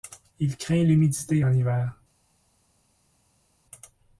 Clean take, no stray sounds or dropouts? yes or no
yes